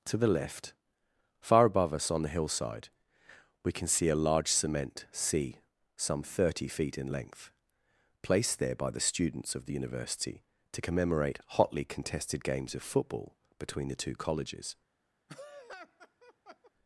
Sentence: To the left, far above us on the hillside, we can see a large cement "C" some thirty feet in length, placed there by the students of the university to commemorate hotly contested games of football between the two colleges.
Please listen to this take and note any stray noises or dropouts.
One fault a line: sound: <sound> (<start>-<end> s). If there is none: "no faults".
sound: laugh (15.3-16.7 s)